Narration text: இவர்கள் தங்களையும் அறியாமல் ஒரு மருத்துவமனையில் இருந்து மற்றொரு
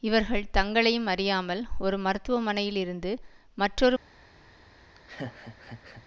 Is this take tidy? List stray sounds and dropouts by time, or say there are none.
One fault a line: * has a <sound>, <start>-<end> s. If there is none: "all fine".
* has a laugh, 4.9-6.0 s